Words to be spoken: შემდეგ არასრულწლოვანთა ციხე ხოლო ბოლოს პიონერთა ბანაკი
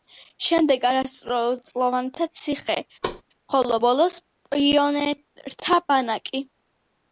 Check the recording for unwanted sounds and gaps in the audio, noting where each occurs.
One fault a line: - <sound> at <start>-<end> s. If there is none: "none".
- thud at 3.0-3.2 s